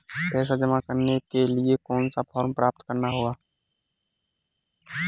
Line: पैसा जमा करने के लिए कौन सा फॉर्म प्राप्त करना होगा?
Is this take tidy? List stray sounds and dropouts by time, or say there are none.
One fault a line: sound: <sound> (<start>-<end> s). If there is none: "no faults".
no faults